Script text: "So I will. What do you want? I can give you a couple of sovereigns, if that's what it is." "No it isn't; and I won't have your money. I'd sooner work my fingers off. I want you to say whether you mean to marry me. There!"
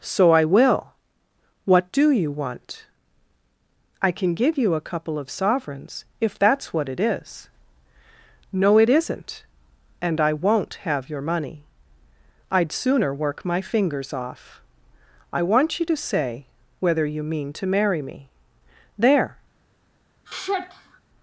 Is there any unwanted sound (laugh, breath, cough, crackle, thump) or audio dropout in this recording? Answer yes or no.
yes